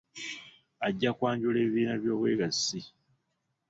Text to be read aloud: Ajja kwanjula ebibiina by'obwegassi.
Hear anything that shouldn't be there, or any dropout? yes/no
no